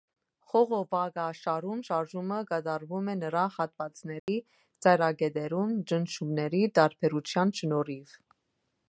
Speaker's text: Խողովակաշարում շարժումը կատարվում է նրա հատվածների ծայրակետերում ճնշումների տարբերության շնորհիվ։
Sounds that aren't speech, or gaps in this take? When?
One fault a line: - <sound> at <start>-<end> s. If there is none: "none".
- dropout at 4.2-4.3 s